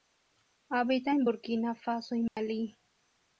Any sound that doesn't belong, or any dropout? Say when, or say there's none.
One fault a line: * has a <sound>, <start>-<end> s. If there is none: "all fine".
* has a dropout, 2.3-2.4 s